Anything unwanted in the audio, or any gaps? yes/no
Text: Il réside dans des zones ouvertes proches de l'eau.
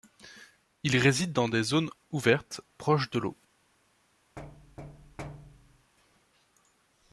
yes